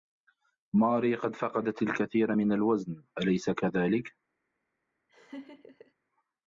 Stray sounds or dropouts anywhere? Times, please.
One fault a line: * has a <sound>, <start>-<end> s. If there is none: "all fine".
* has a laugh, 5.1-5.9 s